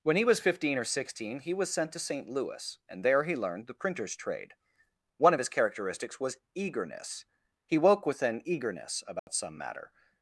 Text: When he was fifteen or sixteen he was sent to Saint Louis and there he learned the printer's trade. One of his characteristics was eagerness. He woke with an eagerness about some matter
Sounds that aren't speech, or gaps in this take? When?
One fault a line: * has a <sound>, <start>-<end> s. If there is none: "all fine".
* has a dropout, 9.2-9.3 s